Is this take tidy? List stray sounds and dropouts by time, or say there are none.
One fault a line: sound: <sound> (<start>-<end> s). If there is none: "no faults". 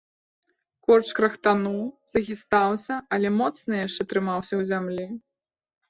no faults